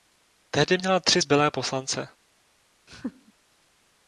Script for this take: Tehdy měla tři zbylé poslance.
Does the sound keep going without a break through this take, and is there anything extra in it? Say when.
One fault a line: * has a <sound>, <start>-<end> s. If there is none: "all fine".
* has a laugh, 2.9-3.3 s